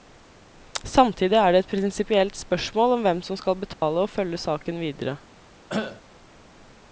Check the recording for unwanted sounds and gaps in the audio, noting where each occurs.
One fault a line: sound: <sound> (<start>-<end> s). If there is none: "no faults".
sound: dropout (3.7-3.8 s)
sound: cough (5.7-6.0 s)